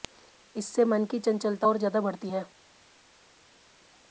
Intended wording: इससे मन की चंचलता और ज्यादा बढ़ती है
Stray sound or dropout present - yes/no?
no